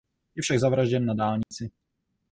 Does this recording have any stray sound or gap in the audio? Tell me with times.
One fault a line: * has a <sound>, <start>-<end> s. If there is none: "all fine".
* has a dropout, 1.4-1.5 s